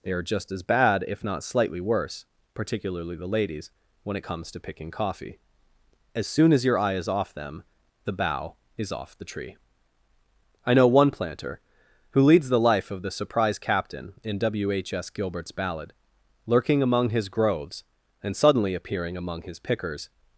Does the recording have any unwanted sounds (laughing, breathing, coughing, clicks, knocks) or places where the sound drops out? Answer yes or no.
no